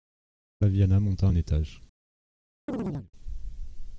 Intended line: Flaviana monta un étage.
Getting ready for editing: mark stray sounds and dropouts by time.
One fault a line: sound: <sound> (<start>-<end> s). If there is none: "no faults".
sound: chirp (2.7-3.1 s)